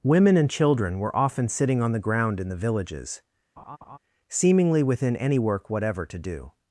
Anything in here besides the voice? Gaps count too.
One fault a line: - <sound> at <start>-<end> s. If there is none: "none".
- laugh at 3.6-4.0 s